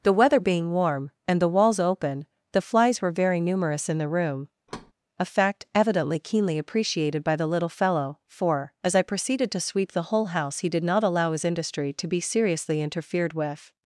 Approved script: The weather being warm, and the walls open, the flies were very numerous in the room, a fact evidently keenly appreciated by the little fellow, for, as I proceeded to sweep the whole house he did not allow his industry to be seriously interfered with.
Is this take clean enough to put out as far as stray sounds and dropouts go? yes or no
no